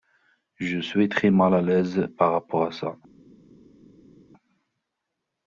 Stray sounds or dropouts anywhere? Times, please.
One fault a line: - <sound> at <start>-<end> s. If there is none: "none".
none